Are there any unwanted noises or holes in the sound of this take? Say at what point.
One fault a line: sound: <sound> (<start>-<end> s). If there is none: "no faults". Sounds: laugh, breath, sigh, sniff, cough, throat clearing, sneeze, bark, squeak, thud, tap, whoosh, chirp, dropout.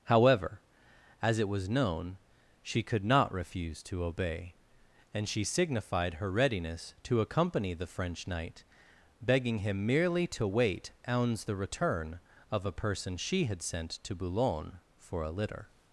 no faults